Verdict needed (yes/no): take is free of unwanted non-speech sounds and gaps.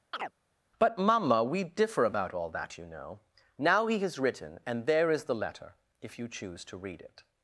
no